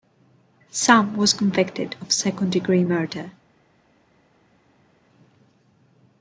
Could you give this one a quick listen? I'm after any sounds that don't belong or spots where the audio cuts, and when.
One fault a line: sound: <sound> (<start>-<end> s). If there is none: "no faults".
no faults